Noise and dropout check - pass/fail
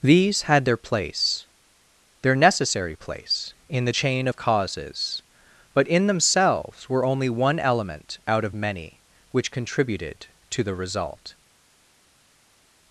pass